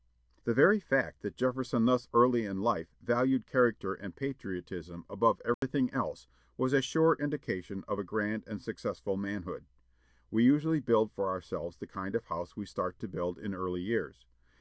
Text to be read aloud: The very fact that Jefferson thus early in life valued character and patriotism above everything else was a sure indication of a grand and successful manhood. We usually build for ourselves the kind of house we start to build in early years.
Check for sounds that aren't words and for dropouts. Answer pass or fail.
fail